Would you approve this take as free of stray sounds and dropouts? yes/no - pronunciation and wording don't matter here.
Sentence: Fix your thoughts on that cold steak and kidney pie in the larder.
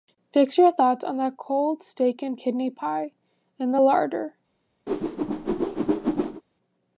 no